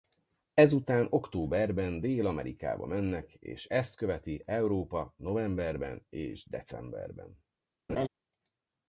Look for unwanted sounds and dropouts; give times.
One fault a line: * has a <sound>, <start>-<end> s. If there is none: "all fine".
* has a laugh, 7.9-8.1 s